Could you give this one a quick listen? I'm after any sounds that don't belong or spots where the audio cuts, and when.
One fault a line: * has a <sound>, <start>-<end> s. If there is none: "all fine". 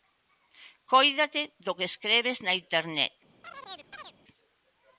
* has a chirp, 3.4-4.1 s